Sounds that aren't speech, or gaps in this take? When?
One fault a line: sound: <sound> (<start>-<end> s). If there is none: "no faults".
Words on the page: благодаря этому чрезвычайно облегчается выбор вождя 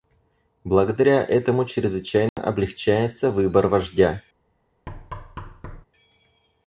sound: dropout (2.3-2.4 s)
sound: thud (4.9-5.8 s)